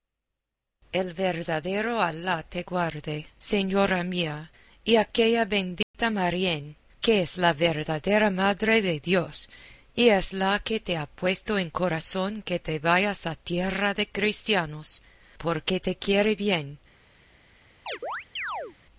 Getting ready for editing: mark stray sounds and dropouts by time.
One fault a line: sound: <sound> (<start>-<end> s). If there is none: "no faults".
sound: dropout (5.8-5.9 s)
sound: chirp (17.9-18.8 s)